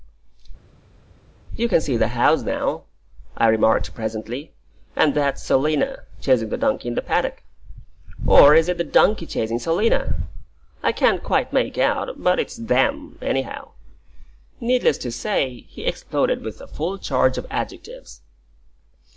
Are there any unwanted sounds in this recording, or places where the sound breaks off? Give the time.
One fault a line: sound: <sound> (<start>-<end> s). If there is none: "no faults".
no faults